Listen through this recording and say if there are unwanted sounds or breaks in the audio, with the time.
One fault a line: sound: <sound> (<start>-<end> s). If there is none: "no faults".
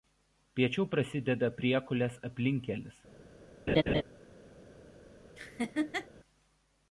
sound: laugh (3.7-4.0 s)
sound: laugh (5.4-6.1 s)